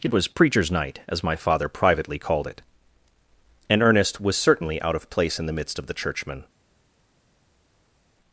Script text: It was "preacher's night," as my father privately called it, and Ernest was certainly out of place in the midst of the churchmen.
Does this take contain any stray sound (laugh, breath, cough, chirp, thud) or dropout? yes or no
no